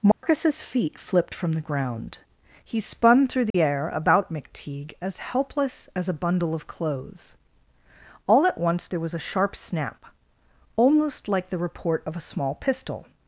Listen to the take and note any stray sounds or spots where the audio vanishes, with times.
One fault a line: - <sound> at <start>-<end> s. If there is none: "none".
- dropout at 0.1-0.2 s
- dropout at 3.5-3.5 s